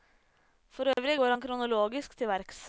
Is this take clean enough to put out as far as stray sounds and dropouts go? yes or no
no